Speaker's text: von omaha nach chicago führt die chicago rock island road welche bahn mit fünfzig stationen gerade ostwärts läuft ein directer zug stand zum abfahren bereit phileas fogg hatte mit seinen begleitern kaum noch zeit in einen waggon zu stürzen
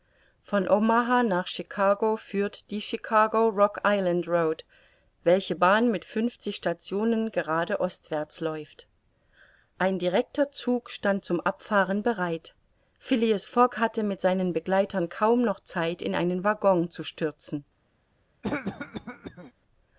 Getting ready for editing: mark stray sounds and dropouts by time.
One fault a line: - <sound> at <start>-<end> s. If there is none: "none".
- cough at 18.4-19.5 s